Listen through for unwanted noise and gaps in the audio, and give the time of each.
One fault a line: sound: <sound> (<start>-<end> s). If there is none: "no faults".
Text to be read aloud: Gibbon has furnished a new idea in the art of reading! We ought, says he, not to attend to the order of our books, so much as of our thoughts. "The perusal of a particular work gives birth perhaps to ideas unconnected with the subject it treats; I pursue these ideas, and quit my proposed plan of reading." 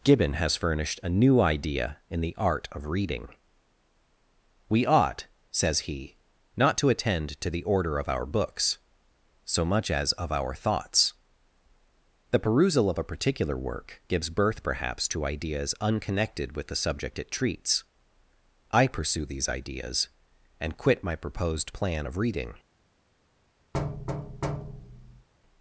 sound: thud (23.7-25.3 s)